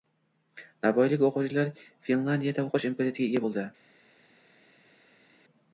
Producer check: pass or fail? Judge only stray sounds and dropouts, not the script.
pass